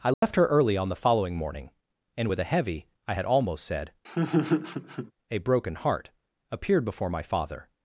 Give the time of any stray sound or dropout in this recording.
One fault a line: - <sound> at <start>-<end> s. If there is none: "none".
- dropout at 0.1-0.2 s
- laugh at 4.0-5.1 s